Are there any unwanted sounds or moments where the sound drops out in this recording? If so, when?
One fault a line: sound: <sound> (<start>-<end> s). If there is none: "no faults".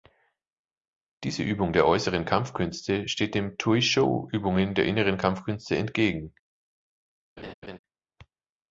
sound: laugh (7.4-7.8 s)